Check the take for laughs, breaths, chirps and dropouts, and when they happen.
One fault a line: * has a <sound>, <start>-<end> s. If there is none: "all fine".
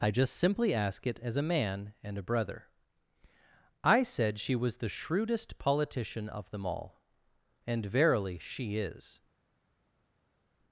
all fine